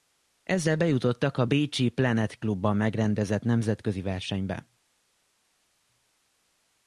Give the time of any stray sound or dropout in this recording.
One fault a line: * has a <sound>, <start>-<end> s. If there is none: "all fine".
all fine